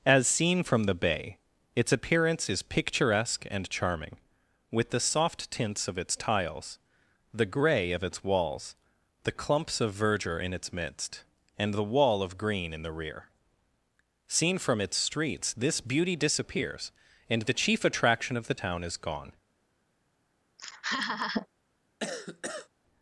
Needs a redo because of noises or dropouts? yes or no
yes